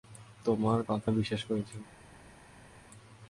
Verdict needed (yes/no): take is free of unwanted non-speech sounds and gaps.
yes